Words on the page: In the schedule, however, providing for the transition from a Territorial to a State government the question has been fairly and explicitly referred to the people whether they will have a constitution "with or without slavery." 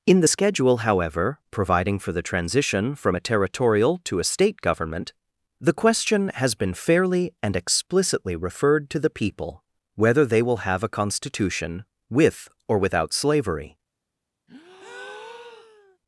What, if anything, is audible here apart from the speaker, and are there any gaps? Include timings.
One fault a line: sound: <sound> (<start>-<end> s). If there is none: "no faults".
sound: breath (14.5-16.0 s)